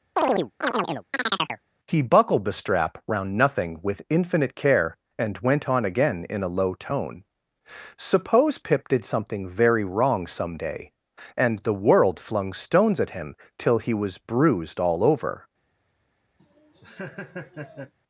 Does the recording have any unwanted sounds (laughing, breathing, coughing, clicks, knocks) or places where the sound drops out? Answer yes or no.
yes